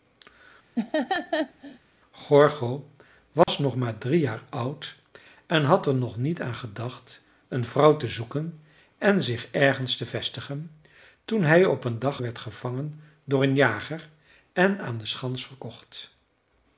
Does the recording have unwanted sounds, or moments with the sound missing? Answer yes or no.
yes